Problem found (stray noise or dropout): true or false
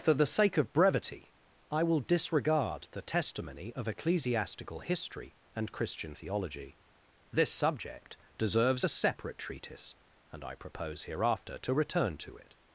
false